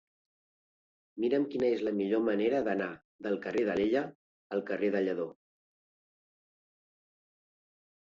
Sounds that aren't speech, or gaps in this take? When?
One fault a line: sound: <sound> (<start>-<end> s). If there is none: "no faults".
no faults